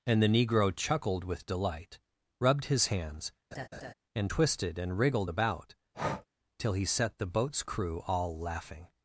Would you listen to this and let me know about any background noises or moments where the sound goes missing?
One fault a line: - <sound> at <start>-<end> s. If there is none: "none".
- laugh at 3.5-3.9 s
- breath at 5.9-6.3 s